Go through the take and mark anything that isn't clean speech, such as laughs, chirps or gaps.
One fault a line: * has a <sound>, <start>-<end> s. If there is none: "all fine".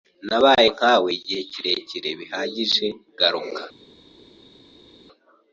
all fine